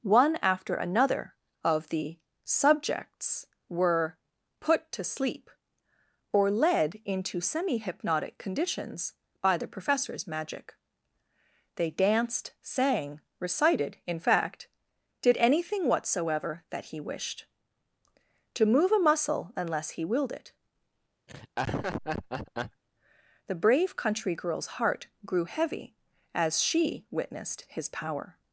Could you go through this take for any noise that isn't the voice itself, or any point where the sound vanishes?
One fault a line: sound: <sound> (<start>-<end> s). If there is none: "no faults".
sound: laugh (21.3-22.8 s)